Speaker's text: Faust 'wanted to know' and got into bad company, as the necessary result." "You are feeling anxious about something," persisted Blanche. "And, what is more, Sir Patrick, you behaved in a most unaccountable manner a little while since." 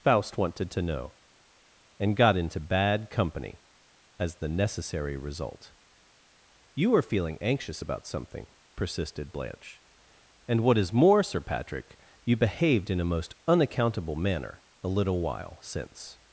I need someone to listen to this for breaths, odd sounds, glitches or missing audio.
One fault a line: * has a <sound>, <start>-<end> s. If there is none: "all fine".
all fine